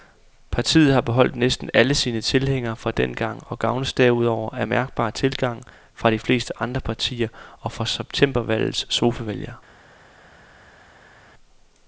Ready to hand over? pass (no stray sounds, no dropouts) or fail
pass